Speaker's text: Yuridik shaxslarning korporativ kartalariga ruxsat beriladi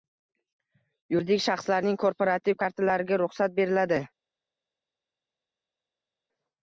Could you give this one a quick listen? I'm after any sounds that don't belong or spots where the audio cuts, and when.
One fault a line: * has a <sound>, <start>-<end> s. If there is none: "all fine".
all fine